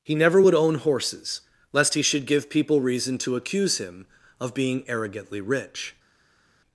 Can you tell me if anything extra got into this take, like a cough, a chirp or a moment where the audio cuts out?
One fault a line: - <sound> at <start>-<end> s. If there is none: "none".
none